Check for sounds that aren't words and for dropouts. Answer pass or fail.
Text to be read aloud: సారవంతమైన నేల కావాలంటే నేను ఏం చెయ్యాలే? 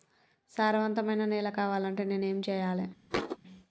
fail